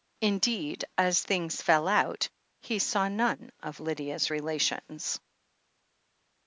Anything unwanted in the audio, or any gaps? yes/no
no